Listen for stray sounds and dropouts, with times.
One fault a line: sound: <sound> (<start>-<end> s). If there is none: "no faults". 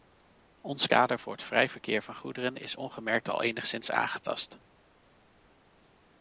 no faults